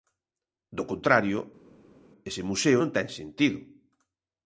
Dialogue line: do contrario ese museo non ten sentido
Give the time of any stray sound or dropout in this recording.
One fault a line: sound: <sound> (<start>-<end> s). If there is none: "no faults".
no faults